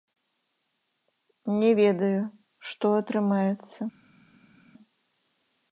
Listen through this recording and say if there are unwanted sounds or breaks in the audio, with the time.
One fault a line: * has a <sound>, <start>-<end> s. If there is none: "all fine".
all fine